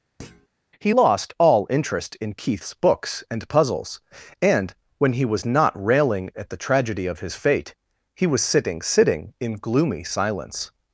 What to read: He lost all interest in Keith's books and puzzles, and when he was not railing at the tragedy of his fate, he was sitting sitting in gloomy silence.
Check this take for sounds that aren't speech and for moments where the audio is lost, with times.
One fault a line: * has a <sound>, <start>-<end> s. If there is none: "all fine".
* has a thud, 0.2-0.5 s